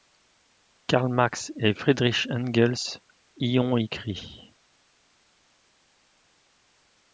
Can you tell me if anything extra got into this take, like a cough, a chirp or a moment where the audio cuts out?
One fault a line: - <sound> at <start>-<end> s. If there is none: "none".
none